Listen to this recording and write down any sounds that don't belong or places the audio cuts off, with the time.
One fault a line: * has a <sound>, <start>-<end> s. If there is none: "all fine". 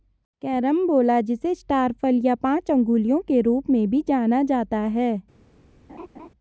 * has a laugh, 5.9-6.3 s